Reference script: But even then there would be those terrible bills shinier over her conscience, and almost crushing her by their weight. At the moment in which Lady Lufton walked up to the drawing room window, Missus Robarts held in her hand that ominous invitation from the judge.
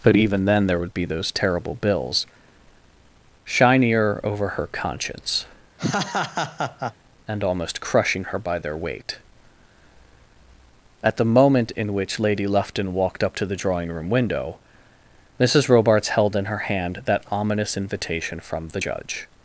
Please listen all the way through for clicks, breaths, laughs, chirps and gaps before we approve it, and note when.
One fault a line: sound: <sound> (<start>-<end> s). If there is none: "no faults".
sound: laugh (5.8-6.9 s)